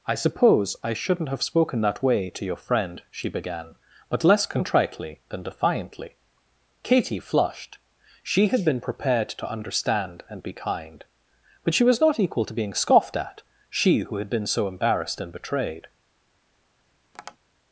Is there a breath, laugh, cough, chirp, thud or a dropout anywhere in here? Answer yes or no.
yes